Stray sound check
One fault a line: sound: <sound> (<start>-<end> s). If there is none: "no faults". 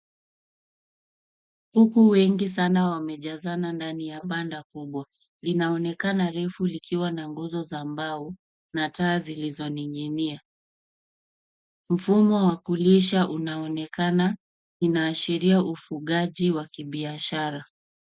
no faults